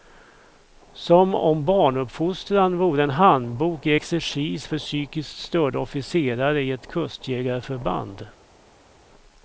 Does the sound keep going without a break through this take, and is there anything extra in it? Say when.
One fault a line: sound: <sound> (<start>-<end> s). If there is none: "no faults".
no faults